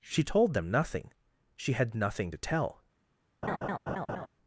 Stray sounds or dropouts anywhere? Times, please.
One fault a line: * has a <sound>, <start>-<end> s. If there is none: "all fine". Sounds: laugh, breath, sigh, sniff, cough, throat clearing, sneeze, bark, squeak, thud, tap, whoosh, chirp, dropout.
* has a laugh, 3.4-4.3 s